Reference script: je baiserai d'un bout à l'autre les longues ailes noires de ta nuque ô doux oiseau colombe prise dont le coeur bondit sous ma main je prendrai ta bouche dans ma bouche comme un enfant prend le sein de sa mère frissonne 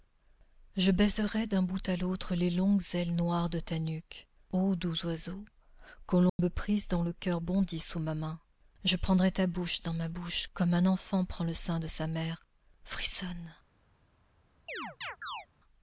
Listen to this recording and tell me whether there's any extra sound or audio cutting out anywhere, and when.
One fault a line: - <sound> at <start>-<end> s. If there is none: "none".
- dropout at 6.3-6.4 s
- chirp at 14.7-15.5 s